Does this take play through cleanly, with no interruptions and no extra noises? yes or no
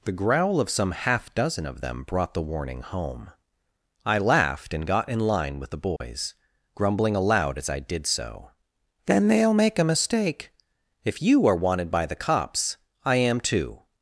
no